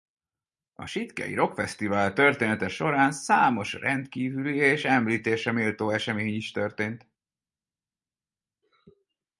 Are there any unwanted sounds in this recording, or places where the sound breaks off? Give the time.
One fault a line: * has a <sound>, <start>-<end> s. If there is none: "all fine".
all fine